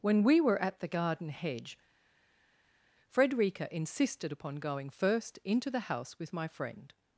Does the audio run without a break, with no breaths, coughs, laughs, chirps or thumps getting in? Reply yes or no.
yes